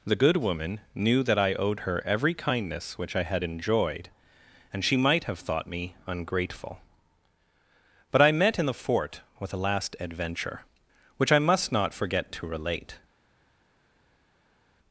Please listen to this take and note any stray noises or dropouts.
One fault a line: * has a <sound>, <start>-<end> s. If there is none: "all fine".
all fine